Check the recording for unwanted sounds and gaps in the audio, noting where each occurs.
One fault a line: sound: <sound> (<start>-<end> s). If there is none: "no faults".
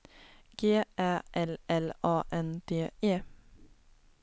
no faults